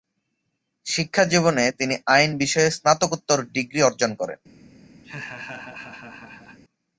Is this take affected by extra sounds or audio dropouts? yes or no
yes